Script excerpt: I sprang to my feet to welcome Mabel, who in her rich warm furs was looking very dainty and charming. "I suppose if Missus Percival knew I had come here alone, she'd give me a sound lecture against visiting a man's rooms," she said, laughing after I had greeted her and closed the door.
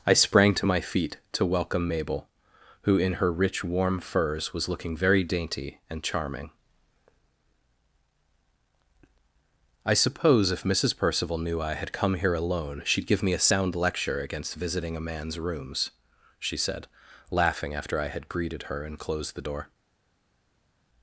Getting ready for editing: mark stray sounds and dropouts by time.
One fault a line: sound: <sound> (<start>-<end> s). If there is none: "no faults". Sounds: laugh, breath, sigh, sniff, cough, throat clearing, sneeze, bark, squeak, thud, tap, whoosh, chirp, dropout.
no faults